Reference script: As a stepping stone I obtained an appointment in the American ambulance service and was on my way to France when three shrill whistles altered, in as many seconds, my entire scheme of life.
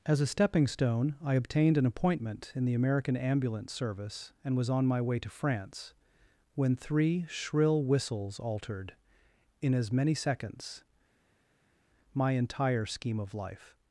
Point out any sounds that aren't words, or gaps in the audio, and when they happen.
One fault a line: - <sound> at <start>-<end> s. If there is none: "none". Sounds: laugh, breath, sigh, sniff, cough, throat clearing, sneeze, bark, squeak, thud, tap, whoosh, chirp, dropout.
none